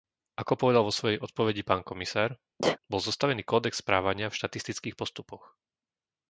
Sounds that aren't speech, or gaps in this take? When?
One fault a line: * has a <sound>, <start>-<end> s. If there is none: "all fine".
* has a sneeze, 2.6-2.8 s